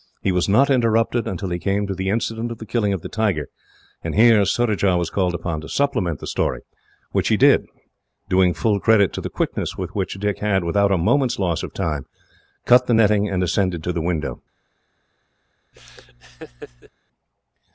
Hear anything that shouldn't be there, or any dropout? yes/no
yes